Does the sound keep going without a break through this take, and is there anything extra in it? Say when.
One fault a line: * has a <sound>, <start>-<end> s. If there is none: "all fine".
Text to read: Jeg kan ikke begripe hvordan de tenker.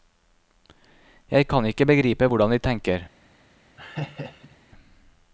* has a laugh, 3.8-4.6 s